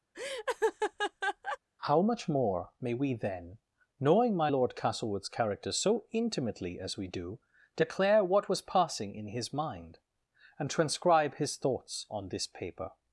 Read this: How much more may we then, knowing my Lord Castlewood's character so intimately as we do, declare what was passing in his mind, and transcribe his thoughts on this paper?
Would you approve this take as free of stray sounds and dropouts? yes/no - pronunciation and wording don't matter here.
no